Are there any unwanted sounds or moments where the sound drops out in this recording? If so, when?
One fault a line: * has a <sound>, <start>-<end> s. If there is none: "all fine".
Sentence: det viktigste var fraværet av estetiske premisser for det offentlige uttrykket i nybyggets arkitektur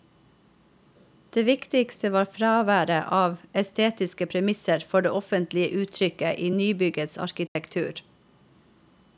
* has a dropout, 7.5-7.6 s